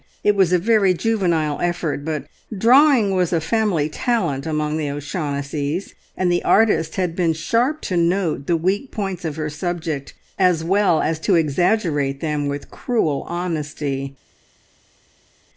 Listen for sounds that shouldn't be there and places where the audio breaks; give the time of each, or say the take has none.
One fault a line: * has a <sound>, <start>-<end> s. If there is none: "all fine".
all fine